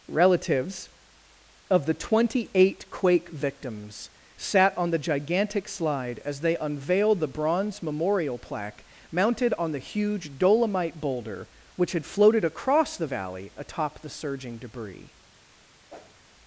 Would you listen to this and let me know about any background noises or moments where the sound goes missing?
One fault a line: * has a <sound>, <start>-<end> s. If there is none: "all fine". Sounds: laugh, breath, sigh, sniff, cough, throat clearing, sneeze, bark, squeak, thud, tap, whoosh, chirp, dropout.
* has a whoosh, 15.9-16.2 s